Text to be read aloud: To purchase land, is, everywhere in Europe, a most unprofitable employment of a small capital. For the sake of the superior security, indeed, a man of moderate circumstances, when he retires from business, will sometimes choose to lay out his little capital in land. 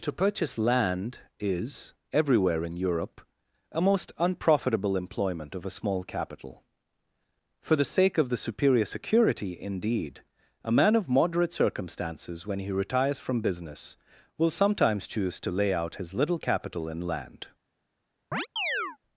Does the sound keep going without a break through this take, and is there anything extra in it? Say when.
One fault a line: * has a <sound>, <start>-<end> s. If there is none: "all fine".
* has a chirp, 18.3-19.0 s